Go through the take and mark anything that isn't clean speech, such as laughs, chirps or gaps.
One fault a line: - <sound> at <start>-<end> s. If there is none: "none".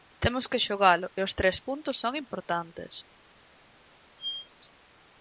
- squeak at 4.2-4.5 s